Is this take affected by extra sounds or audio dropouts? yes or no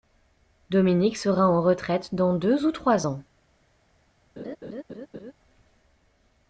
yes